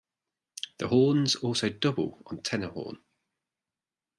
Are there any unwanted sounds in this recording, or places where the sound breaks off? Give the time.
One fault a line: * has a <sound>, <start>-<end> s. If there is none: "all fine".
all fine